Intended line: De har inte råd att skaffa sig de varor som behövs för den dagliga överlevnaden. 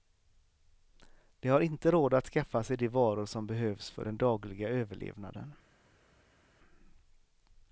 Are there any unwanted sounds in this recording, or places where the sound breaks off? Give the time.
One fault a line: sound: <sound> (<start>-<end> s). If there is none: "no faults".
no faults